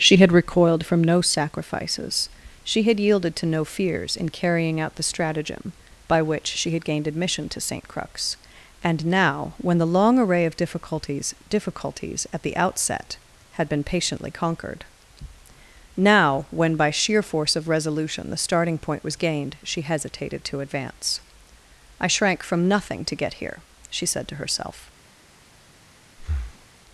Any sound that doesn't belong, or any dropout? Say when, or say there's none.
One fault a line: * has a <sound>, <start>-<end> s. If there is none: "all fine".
* has a breath, 26.2-26.7 s